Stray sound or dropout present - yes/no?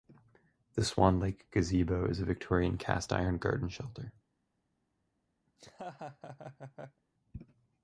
yes